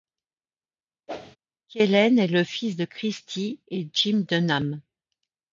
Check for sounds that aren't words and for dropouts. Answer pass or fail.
fail